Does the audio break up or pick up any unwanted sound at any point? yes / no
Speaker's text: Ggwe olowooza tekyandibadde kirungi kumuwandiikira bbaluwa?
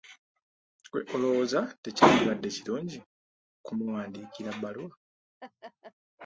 yes